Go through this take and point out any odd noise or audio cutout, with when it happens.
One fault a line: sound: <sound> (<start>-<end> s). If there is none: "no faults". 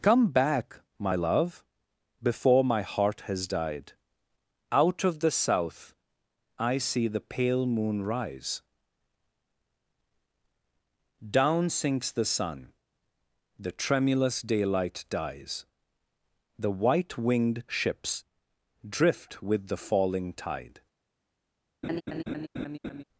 sound: laugh (21.8-23.0 s)